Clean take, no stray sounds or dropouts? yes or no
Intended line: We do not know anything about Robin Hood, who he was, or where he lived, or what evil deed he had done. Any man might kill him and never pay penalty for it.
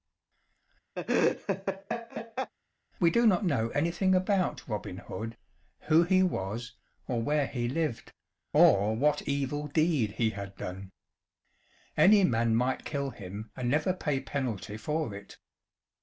no